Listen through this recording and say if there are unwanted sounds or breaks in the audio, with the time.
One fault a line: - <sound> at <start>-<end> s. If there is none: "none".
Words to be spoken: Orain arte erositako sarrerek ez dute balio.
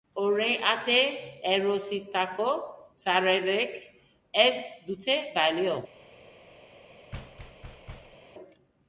- thud at 7.1-8.2 s